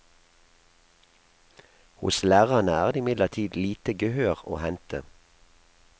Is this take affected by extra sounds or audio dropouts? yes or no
no